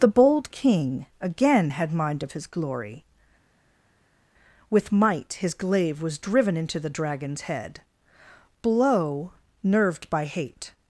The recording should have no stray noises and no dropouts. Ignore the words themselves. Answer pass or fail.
pass